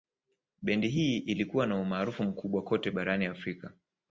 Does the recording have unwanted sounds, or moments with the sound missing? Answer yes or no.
no